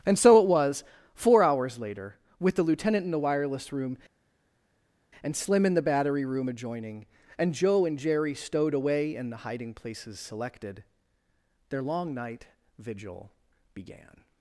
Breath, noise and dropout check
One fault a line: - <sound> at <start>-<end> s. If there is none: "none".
none